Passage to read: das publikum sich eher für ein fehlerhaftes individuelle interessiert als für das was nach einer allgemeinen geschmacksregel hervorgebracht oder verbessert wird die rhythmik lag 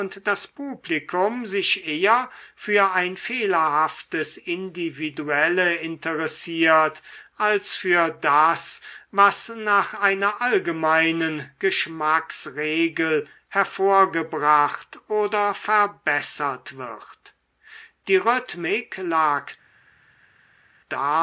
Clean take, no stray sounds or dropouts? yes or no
yes